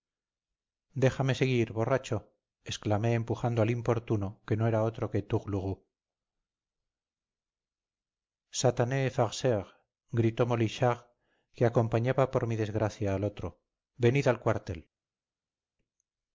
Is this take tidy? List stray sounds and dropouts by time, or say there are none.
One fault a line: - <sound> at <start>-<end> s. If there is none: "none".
none